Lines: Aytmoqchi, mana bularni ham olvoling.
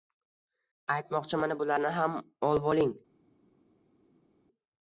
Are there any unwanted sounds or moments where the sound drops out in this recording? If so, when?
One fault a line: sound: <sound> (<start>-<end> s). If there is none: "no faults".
no faults